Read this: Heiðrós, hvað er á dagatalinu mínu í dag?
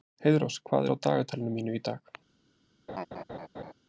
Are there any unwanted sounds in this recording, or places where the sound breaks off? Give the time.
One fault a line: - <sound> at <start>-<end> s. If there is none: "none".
- laugh at 2.9-3.7 s